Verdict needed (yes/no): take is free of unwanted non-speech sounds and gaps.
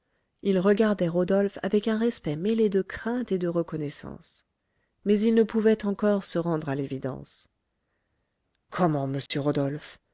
no